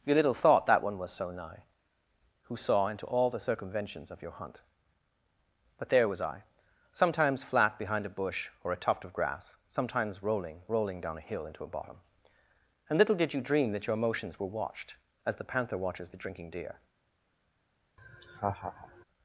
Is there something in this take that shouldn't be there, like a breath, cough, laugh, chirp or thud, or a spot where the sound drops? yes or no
yes